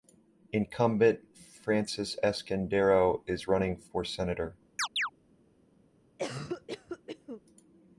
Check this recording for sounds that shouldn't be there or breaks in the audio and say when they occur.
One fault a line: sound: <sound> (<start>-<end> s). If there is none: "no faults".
sound: chirp (4.8-5.1 s)
sound: cough (6.2-7.4 s)